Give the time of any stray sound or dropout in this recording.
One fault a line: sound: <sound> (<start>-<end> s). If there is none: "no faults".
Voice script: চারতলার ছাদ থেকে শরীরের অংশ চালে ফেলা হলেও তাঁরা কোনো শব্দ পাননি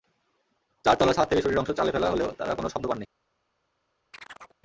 sound: chirp (4.1-4.6 s)